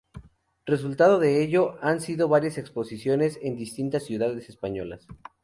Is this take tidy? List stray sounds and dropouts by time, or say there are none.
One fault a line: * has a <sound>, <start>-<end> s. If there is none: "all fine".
all fine